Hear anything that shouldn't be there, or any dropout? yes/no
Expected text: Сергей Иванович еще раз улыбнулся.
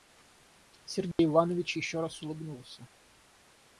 yes